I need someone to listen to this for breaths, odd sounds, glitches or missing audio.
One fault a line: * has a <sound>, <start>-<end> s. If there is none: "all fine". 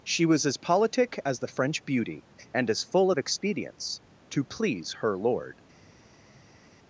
all fine